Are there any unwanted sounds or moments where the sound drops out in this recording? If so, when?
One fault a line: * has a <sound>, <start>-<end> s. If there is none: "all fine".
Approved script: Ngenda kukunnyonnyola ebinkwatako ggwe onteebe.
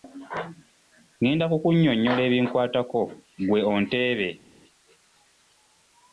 all fine